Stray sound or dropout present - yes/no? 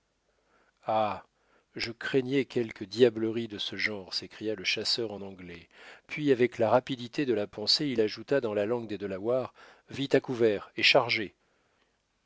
no